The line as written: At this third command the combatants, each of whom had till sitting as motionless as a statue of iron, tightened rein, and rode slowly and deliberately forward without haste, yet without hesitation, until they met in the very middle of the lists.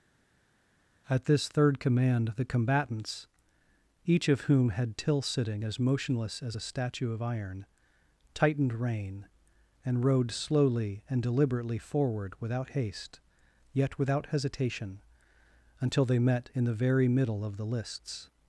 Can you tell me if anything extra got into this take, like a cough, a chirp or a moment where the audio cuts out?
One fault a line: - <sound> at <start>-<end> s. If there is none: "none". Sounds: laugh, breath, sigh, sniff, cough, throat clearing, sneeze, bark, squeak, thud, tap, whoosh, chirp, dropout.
none